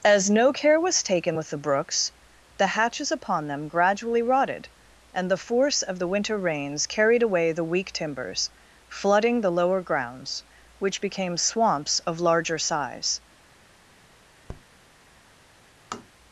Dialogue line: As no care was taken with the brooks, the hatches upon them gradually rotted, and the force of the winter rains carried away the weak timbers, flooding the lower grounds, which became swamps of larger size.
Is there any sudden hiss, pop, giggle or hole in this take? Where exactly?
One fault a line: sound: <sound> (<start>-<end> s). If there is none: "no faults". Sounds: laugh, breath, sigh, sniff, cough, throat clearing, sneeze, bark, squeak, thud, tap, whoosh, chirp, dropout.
sound: tap (14.5-14.6 s)
sound: tap (15.9-16.1 s)